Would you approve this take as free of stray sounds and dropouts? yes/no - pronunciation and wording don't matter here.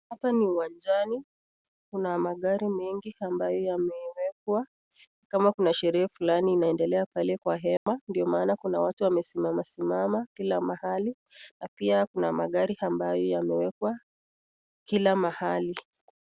no